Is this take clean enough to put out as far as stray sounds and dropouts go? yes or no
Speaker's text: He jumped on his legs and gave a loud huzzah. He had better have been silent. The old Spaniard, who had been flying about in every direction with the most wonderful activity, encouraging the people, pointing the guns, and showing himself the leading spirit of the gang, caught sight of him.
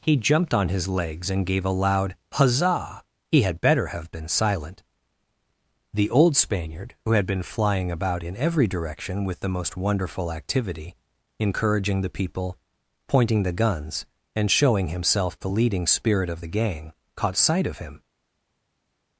yes